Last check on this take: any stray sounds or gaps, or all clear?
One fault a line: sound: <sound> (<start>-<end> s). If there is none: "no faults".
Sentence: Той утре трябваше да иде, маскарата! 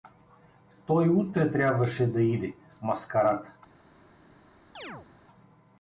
sound: chirp (4.7-5.1 s)